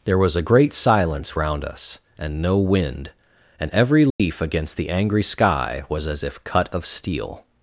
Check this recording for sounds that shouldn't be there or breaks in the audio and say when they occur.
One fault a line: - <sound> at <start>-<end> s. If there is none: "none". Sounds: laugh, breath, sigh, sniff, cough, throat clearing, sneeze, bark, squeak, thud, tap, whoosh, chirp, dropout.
- dropout at 4.1-4.2 s